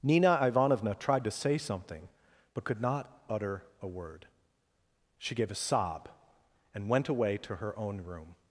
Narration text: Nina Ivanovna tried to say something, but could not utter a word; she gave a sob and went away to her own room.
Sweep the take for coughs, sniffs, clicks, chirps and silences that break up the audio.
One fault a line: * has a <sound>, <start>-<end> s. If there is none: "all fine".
all fine